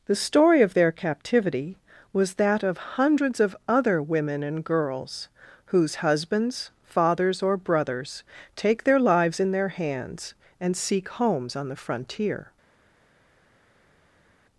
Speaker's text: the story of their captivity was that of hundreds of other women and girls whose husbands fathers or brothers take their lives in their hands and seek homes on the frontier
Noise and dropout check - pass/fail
pass